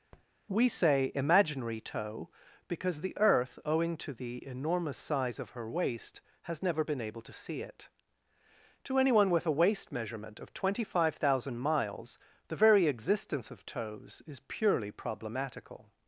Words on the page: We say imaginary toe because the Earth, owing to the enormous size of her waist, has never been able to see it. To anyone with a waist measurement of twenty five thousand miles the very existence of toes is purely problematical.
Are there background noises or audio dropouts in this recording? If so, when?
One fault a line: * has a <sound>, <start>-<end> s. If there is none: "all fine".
* has a tap, 0.1-0.3 s